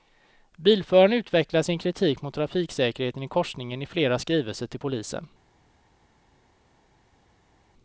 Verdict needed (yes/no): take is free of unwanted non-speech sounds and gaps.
yes